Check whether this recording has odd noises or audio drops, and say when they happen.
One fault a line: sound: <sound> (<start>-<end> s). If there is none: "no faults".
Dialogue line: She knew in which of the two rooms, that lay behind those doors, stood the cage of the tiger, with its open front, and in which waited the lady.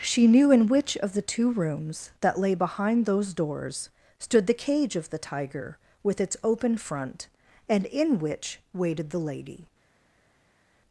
no faults